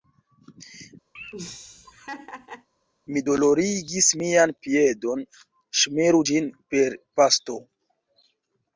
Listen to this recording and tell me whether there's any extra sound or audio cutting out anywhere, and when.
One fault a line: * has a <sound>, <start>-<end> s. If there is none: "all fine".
* has a laugh, 1.2-2.7 s